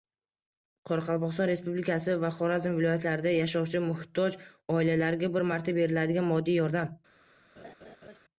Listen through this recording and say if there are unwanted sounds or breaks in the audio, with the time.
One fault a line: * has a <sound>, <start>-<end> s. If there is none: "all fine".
* has a laugh, 7.6-8.2 s